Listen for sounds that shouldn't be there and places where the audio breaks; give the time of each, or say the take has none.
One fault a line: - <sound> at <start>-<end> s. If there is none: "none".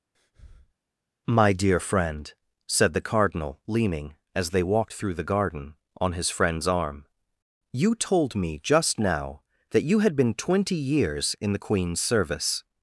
- breath at 0.1-0.7 s